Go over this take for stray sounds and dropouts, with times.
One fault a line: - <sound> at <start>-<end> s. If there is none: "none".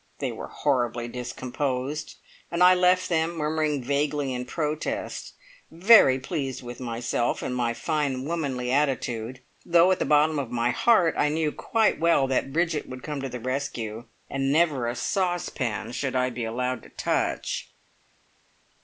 none